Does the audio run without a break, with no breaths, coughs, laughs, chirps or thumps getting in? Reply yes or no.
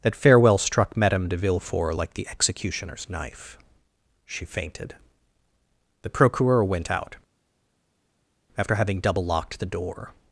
yes